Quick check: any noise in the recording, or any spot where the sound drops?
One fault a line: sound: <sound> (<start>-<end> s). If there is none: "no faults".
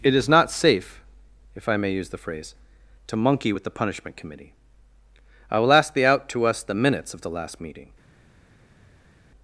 no faults